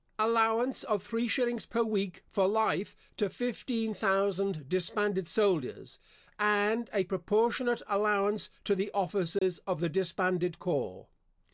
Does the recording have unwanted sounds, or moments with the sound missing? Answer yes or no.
yes